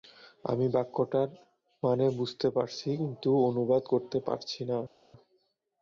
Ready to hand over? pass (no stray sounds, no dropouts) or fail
pass